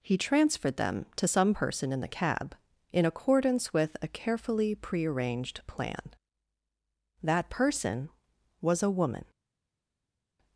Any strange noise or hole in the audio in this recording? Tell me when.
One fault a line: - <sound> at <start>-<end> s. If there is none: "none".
none